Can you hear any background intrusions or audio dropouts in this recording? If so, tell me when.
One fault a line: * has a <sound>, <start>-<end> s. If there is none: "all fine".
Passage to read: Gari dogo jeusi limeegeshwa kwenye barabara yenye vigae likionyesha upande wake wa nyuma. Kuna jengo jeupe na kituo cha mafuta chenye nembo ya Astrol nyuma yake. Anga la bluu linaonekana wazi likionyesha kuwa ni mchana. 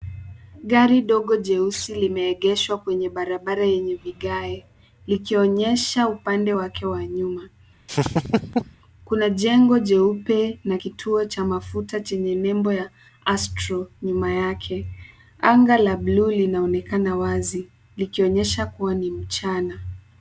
* has a laugh, 7.9-8.8 s